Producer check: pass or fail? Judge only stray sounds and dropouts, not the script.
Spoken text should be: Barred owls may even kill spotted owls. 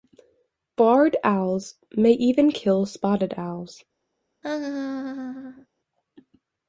fail